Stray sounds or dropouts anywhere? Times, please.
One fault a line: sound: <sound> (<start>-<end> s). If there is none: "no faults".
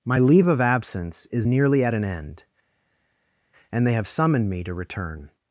no faults